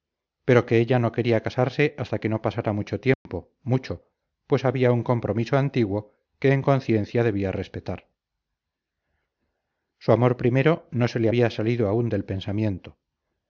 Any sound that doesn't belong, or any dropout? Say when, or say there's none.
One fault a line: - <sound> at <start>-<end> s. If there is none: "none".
- dropout at 3.1-3.3 s